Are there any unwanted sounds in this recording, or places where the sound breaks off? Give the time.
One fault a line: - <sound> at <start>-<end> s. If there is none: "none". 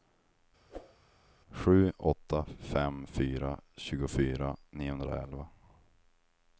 - whoosh at 0.7-1.0 s